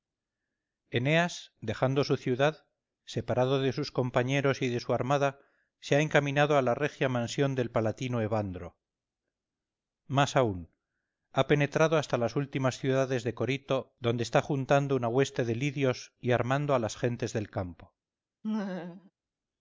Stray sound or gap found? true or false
true